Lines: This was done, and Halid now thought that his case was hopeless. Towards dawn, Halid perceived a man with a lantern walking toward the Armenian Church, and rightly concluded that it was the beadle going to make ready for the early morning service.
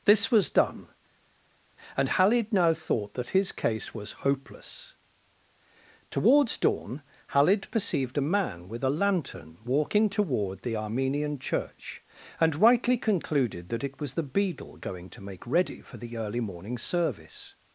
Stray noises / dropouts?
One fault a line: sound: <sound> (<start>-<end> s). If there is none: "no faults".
no faults